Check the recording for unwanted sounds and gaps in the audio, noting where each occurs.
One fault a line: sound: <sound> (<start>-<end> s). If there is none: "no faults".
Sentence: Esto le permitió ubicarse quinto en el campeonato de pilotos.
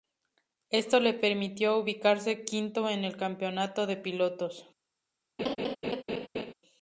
sound: laugh (5.4-6.5 s)